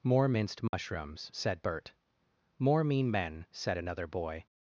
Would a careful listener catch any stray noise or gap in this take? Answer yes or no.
yes